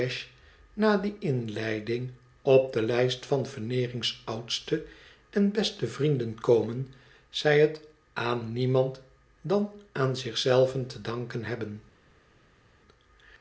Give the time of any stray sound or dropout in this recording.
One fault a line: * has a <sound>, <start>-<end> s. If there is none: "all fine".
all fine